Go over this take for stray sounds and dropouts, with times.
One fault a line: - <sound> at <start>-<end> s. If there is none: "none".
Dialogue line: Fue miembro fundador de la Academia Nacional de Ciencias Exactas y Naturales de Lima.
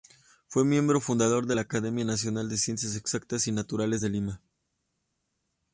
none